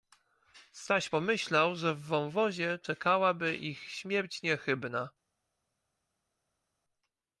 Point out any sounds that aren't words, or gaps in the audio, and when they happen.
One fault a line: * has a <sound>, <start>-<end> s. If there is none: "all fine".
all fine